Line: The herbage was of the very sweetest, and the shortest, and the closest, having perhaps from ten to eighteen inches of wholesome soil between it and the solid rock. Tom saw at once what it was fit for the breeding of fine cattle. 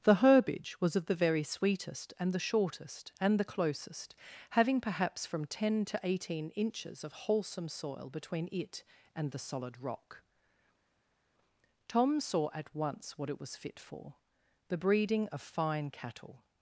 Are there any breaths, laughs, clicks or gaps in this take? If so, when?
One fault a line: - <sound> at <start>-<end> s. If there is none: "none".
none